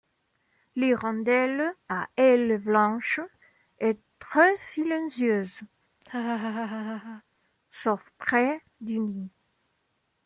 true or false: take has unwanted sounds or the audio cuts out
true